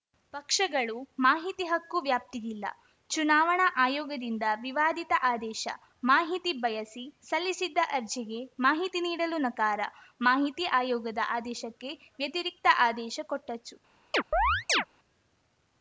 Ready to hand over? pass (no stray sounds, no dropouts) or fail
fail